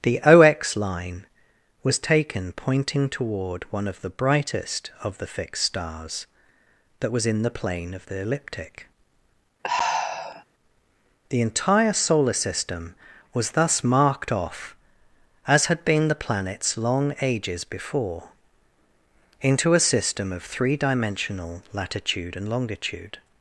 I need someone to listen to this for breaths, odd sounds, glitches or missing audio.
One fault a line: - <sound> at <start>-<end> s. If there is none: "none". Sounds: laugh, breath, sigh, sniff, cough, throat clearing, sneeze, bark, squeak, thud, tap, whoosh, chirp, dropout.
- sigh at 9.6-10.4 s